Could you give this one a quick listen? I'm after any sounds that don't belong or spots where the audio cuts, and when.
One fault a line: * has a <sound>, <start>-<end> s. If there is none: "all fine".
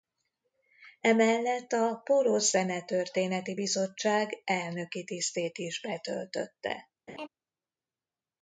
* has a laugh, 7.1-7.3 s